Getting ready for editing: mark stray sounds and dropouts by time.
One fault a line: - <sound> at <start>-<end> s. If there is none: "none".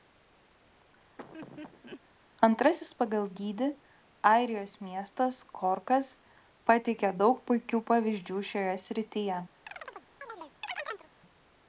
- laugh at 1.2-2.0 s
- chirp at 9.7-11.1 s